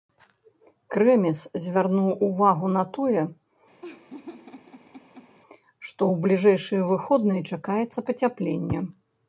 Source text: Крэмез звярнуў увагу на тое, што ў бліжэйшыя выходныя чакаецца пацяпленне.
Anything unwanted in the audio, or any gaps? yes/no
yes